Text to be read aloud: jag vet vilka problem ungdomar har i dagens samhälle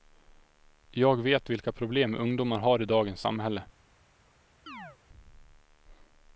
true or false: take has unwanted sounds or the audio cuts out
true